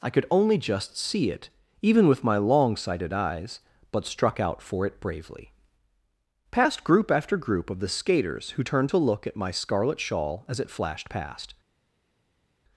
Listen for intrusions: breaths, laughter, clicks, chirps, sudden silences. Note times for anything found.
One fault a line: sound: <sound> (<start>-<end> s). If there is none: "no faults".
no faults